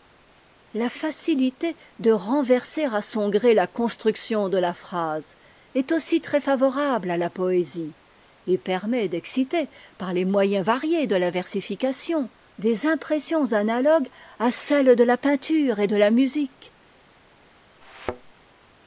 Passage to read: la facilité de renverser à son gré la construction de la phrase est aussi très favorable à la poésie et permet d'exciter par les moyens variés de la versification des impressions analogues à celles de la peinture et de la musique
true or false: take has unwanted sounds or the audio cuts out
true